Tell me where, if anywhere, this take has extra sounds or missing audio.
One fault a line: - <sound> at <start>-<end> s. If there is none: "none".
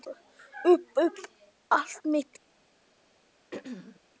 - throat clearing at 3.5-4.0 s